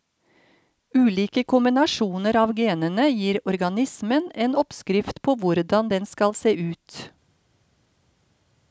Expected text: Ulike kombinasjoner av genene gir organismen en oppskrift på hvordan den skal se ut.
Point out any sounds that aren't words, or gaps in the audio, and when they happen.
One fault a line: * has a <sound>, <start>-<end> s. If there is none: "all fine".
all fine